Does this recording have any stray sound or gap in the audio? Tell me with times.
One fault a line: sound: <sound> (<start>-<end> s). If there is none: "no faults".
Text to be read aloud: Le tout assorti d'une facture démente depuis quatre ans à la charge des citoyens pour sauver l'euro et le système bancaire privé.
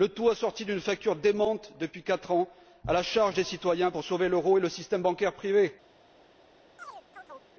sound: chirp (6.8-7.5 s)